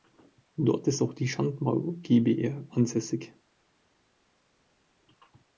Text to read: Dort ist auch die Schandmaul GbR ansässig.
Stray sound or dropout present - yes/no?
no